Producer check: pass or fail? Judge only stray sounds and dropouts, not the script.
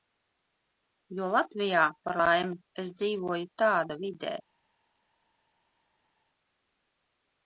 pass